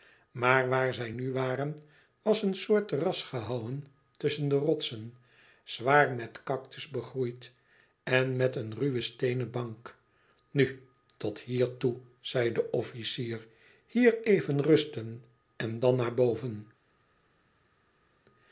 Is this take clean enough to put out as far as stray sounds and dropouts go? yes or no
yes